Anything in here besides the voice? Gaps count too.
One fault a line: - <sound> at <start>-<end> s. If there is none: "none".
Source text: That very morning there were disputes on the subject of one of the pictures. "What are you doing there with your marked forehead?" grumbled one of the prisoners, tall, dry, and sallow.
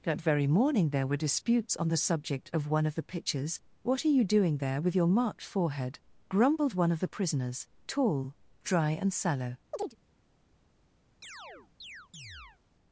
- chirp at 9.7-10.0 s
- chirp at 11.2-12.6 s